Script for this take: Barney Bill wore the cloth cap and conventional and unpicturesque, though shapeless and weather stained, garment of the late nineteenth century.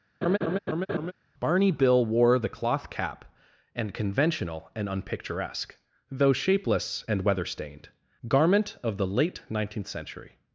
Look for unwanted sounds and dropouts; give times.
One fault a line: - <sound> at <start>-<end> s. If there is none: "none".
- laugh at 0.2-1.1 s